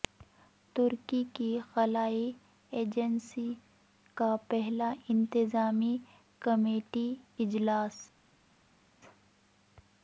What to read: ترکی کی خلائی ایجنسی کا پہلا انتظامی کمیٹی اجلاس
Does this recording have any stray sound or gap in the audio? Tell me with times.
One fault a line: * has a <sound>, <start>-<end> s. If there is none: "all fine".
all fine